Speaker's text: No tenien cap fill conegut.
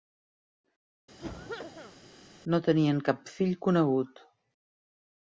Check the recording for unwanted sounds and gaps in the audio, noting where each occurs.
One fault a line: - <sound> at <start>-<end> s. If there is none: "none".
- cough at 1.2-2.0 s